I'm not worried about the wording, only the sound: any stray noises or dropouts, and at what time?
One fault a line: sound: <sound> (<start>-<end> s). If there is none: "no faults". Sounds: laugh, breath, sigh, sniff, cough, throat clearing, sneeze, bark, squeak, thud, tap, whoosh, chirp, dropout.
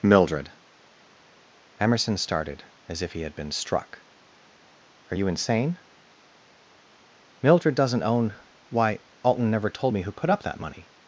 no faults